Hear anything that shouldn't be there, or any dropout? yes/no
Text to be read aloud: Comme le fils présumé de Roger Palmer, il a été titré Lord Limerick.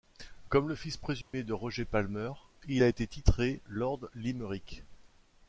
yes